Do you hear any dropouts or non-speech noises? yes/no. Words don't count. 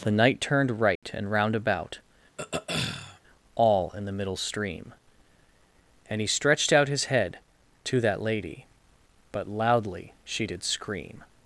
yes